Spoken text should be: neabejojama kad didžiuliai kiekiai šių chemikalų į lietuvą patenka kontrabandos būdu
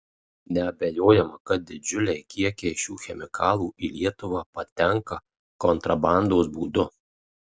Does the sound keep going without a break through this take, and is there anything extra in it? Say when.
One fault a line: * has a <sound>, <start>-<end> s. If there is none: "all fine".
all fine